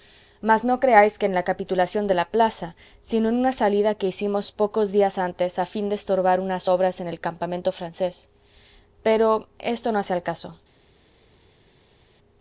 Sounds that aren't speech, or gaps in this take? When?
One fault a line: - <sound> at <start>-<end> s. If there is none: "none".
none